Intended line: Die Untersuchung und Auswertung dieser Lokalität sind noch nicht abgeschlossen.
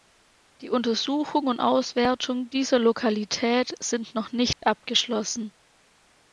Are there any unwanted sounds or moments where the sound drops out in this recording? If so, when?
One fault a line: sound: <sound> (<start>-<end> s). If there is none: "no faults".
sound: dropout (4.5-4.6 s)